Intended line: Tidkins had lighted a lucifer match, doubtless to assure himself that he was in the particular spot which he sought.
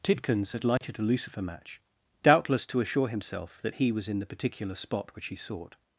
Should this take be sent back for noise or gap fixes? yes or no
yes